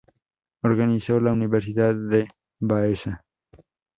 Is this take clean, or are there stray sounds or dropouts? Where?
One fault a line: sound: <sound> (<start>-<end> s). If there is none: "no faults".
no faults